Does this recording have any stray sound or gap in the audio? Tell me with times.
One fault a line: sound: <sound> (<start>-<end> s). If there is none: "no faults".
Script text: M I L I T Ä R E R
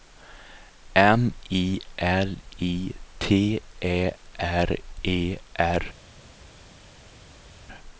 no faults